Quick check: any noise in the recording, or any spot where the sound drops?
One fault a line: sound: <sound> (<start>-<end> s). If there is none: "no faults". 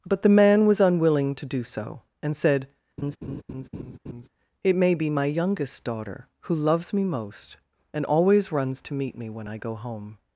sound: laugh (3.0-4.3 s)